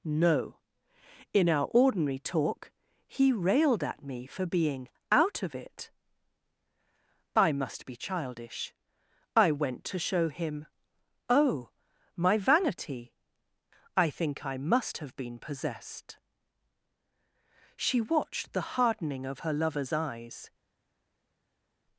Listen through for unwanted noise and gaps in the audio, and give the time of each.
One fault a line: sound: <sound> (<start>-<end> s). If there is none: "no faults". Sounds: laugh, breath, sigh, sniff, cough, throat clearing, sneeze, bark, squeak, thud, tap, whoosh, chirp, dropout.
no faults